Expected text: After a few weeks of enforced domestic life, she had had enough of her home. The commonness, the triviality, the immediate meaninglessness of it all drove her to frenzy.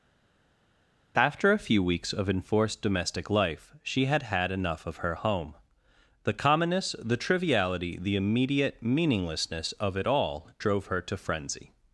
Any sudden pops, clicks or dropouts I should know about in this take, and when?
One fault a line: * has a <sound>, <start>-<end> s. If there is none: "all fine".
all fine